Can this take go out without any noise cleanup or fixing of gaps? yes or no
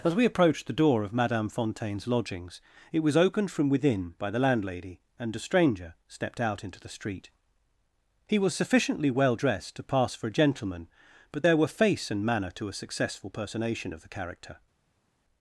yes